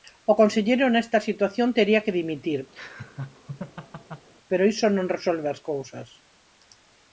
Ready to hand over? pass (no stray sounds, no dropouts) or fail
fail